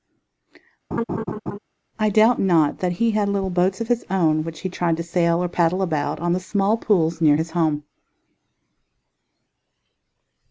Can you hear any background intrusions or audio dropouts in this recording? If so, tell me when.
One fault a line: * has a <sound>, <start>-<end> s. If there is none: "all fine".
* has a laugh, 0.9-1.6 s